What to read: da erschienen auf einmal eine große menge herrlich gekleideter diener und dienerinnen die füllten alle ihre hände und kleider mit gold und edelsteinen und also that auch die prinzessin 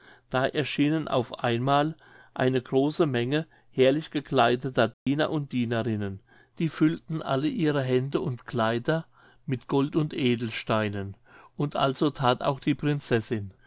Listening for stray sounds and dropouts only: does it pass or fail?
fail